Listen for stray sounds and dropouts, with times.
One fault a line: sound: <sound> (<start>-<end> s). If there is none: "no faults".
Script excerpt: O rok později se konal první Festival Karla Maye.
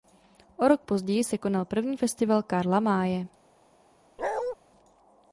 sound: bark (4.2-4.6 s)